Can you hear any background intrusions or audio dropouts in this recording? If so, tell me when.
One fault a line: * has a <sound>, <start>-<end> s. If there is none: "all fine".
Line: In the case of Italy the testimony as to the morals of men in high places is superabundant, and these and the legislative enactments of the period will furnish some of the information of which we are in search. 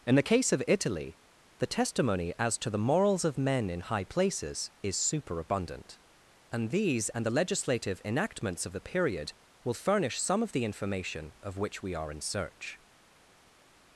all fine